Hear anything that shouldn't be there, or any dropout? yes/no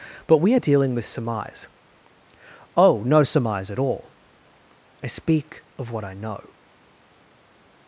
no